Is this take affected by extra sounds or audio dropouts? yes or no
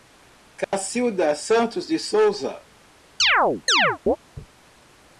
yes